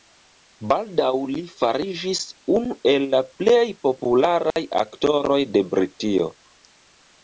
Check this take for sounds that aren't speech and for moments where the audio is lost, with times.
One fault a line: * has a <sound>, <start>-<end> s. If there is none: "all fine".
* has a dropout, 4.5-4.6 s